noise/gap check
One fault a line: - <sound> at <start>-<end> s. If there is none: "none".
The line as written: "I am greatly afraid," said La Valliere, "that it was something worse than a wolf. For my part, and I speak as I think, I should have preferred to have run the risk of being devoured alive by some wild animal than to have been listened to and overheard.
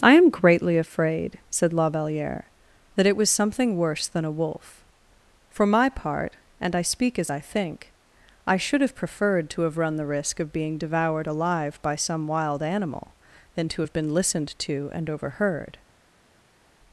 none